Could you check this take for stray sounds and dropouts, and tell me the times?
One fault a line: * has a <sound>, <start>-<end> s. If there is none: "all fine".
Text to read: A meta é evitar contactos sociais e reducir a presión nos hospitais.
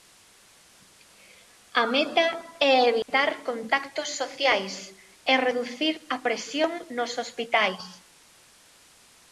* has a dropout, 3.0-3.1 s